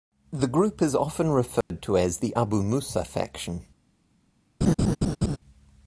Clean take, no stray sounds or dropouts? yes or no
no